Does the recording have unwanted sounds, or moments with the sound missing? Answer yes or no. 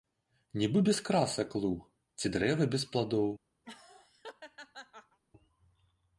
yes